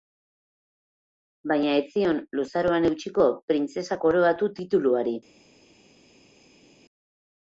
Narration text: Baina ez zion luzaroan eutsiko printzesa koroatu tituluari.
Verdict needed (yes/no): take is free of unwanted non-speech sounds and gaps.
yes